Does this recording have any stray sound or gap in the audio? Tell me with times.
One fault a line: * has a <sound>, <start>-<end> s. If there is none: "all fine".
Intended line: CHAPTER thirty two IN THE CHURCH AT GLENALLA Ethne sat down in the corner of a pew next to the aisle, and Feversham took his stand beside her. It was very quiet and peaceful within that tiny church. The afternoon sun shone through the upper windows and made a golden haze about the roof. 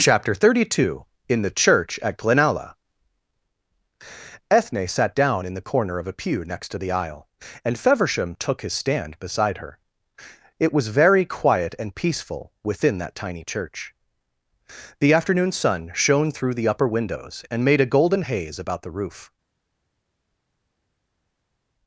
all fine